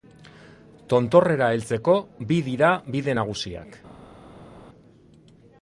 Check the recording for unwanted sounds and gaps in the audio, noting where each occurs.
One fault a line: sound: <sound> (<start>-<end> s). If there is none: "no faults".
no faults